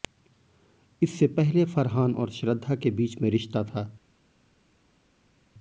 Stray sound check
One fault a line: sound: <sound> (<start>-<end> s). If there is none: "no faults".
no faults